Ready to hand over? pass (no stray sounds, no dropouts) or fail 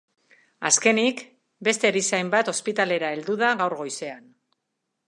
pass